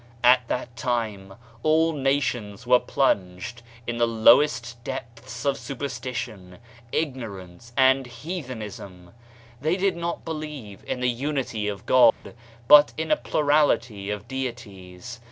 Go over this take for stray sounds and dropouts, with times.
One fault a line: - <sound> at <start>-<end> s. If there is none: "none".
- dropout at 12.1-12.2 s